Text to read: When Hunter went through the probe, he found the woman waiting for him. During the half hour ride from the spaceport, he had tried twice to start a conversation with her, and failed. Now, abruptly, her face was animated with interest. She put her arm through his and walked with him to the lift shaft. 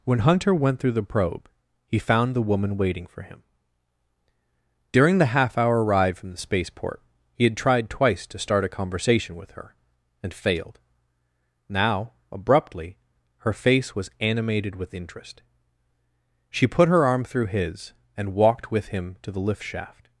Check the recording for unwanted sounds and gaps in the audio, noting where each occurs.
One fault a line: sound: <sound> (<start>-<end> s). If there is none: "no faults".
no faults